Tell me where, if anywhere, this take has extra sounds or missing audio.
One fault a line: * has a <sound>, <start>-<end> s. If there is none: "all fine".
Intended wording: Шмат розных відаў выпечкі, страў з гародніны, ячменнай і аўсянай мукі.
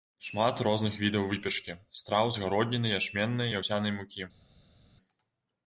all fine